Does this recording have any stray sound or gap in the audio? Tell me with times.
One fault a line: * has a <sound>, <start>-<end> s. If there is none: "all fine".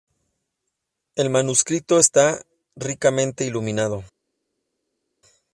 all fine